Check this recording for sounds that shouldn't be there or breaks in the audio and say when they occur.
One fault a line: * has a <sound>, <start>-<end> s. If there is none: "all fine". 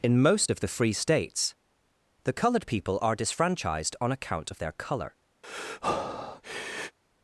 * has a breath, 5.4-7.0 s